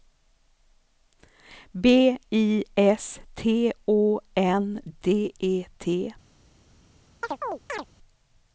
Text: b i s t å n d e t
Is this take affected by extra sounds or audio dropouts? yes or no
yes